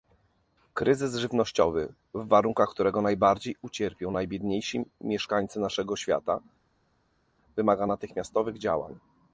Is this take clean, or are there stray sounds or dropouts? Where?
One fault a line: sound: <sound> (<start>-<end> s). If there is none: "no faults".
no faults